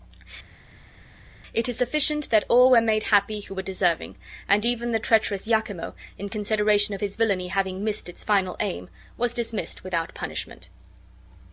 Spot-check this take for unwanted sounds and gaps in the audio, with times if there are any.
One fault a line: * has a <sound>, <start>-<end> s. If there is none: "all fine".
all fine